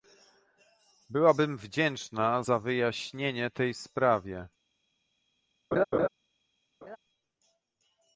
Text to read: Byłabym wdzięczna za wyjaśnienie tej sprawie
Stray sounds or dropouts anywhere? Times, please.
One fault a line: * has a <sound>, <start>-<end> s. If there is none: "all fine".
* has a laugh, 5.7-6.1 s
* has a laugh, 6.8-7.0 s